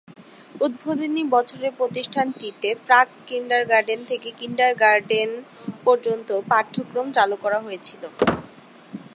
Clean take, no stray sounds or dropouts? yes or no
no